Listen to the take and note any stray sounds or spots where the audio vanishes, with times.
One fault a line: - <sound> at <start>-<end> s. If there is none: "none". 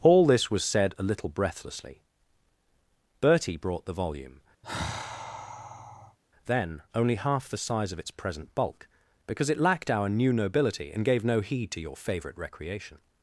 - sigh at 4.6-6.2 s